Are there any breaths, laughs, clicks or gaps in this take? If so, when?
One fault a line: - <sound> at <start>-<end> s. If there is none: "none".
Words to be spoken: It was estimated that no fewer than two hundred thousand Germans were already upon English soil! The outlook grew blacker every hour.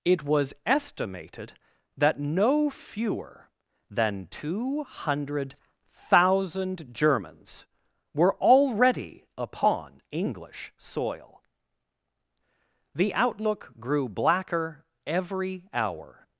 none